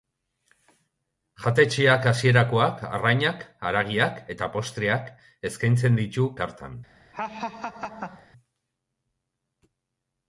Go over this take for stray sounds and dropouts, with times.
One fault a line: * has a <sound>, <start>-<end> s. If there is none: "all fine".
* has a laugh, 7.1-8.3 s